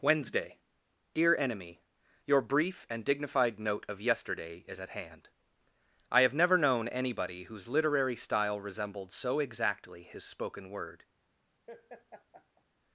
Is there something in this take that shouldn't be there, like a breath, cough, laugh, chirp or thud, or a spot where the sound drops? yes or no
yes